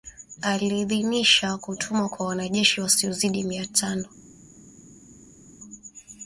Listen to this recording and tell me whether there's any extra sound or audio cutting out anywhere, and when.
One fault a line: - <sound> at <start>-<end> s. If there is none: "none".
none